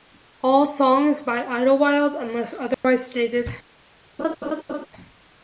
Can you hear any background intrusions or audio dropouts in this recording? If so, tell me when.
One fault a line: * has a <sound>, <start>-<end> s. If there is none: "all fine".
* has a dropout, 2.7-2.8 s
* has a laugh, 4.2-4.9 s